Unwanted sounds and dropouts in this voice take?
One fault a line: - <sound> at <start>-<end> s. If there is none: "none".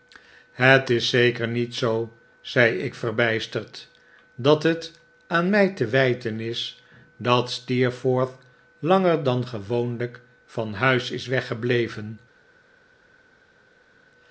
none